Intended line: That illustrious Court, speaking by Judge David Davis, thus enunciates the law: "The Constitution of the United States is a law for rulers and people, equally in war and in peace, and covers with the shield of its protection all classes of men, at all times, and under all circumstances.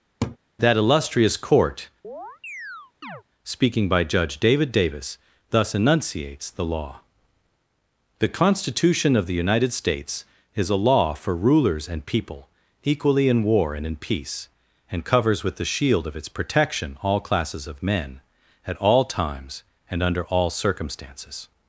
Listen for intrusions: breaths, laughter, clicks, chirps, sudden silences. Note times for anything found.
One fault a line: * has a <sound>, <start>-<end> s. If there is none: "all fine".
* has a laugh, 0.2-0.4 s
* has a chirp, 2.0-3.2 s